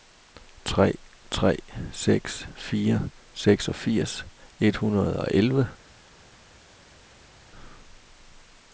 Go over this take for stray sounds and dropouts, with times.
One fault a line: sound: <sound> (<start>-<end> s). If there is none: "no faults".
no faults